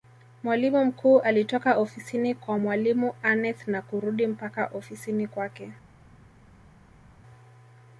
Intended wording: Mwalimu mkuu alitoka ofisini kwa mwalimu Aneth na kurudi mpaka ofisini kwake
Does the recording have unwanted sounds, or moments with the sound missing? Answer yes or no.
no